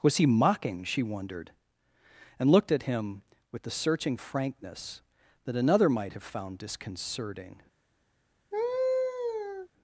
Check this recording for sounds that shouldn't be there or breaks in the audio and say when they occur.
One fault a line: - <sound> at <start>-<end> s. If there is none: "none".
- laugh at 8.5-9.7 s